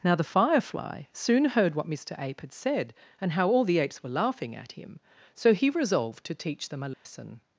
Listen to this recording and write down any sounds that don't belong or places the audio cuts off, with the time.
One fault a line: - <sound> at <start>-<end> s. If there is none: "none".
- dropout at 6.9-7.1 s